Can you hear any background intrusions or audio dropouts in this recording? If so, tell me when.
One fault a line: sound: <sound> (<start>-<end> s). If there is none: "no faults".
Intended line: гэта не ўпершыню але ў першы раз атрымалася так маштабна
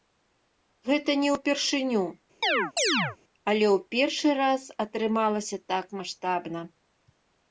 sound: chirp (2.4-3.2 s)